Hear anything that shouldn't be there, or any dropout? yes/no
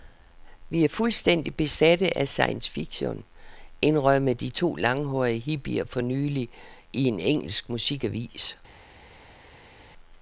no